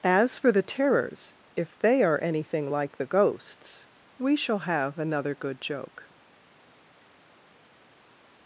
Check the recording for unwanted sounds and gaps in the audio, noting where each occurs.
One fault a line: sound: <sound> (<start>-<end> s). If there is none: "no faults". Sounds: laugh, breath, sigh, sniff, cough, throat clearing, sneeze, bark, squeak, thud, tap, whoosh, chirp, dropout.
no faults